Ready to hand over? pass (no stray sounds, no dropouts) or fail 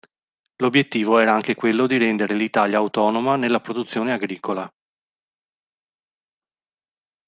pass